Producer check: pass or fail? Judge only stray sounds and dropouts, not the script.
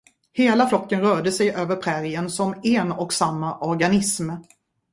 pass